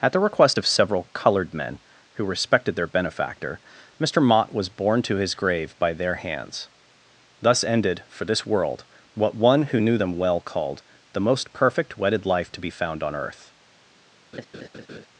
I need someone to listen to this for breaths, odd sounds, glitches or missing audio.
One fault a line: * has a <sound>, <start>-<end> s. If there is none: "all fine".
* has a laugh, 14.3-15.1 s